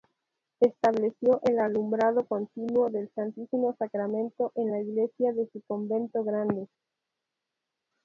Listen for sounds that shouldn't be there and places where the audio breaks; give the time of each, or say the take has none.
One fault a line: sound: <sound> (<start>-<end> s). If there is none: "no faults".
no faults